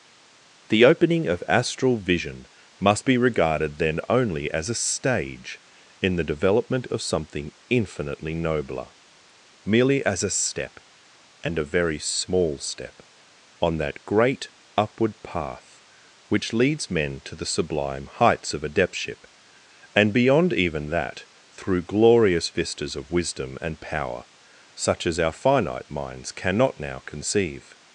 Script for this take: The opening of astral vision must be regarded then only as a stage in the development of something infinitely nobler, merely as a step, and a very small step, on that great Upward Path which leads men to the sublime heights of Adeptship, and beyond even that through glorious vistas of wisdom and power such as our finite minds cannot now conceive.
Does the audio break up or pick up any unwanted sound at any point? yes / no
no